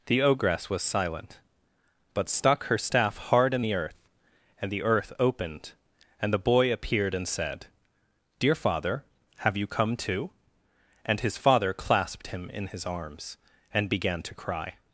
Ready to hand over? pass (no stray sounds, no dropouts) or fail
pass